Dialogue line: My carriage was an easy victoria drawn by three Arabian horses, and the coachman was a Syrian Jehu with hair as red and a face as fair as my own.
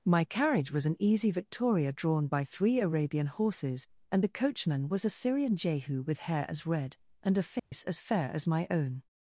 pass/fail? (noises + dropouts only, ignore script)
fail